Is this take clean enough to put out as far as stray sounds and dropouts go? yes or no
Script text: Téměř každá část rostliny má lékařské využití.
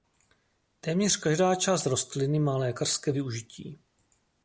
yes